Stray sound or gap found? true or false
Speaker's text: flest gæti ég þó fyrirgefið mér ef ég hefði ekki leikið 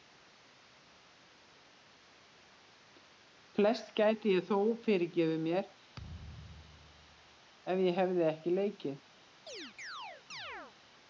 true